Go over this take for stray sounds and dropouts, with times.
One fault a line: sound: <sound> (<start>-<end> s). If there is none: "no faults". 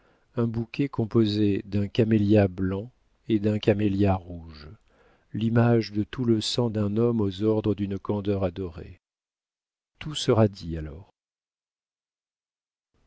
no faults